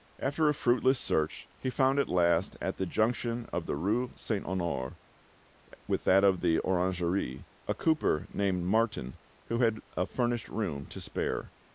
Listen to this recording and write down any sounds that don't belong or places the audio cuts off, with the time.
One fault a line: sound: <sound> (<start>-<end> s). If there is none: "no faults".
no faults